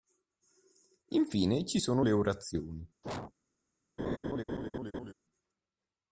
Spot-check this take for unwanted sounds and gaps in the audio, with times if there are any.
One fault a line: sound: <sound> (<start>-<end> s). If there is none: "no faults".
sound: sneeze (3.0-3.3 s)
sound: laugh (4.0-5.1 s)